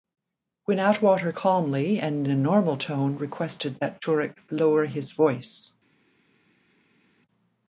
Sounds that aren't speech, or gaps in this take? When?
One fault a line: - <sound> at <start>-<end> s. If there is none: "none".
none